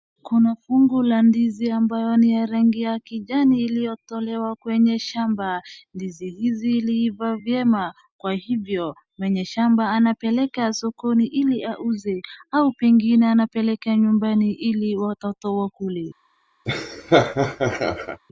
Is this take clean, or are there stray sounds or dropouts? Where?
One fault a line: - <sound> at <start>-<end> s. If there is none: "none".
- laugh at 16.7-18.2 s